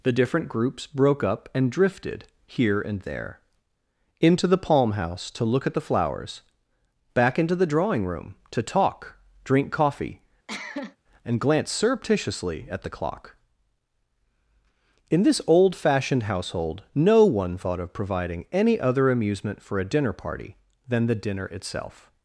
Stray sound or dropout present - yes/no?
yes